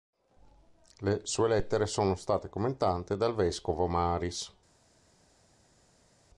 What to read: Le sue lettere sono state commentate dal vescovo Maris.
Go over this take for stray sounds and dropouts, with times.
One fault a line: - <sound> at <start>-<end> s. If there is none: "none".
none